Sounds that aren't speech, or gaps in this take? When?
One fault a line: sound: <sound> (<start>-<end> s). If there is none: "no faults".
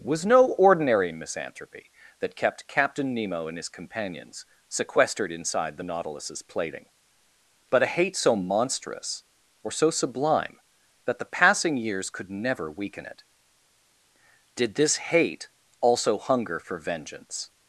no faults